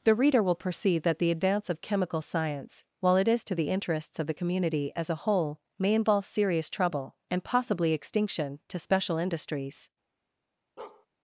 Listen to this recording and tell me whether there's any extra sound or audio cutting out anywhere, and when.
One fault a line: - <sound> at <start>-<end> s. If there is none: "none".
- bark at 10.8-11.1 s